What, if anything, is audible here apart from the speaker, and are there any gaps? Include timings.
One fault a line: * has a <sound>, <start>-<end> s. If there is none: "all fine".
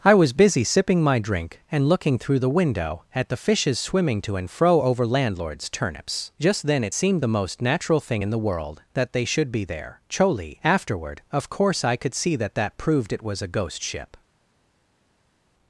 all fine